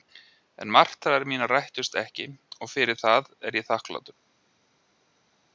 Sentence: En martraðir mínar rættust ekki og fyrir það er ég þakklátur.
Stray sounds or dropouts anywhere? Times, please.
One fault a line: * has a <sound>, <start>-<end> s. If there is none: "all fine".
all fine